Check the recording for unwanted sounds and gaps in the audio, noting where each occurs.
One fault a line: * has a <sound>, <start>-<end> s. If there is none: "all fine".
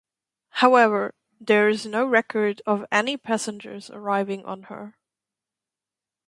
all fine